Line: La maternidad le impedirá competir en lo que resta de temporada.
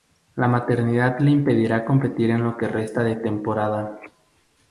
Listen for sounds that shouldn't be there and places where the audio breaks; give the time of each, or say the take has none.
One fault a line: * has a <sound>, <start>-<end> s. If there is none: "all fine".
all fine